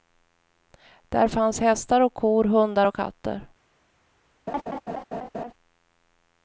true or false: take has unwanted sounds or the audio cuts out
true